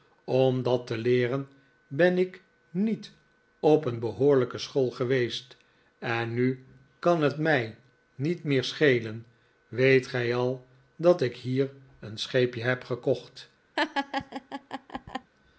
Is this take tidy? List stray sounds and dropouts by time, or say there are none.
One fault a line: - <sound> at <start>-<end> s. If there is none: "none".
- laugh at 13.8-15.3 s